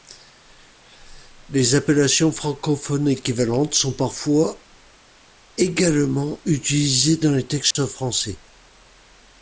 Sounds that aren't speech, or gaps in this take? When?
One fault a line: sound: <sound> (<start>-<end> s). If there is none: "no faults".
sound: dropout (7.7-7.8 s)